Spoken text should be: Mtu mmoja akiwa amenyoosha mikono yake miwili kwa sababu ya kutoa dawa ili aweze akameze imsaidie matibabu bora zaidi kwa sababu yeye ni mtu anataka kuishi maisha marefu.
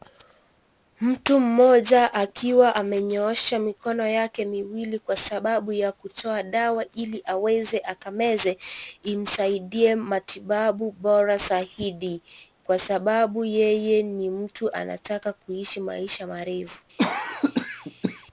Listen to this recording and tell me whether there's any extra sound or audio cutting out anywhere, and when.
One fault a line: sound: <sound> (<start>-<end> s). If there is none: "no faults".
sound: cough (17.0-18.3 s)